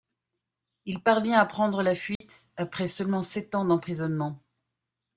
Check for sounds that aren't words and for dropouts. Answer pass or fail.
fail